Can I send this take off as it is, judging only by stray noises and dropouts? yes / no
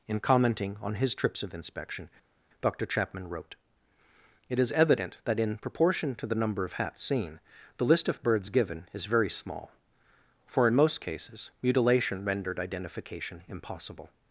yes